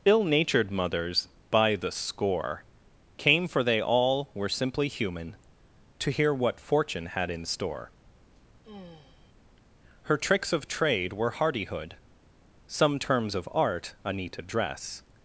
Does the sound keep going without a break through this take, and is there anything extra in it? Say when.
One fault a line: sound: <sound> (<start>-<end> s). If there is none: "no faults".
sound: sigh (8.6-9.3 s)